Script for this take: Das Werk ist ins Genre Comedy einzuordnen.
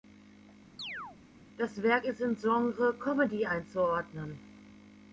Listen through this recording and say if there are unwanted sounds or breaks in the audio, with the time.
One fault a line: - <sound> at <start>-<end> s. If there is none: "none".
- chirp at 0.8-1.2 s